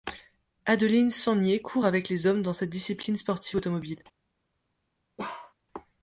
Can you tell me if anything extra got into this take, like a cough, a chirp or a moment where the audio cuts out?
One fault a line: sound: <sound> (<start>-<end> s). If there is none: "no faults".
sound: bark (5.2-5.5 s)